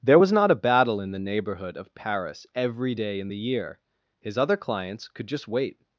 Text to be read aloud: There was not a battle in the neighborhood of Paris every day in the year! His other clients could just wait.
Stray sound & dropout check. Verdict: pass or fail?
pass